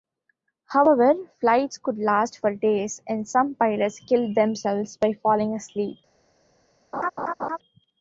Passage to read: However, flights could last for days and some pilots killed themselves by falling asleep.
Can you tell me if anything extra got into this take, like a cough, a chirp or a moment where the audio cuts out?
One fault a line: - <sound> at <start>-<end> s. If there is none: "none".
- laugh at 6.9-7.6 s